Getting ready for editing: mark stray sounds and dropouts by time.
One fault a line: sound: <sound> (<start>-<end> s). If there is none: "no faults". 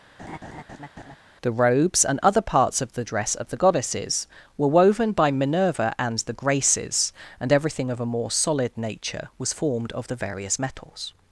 sound: laugh (0.2-1.2 s)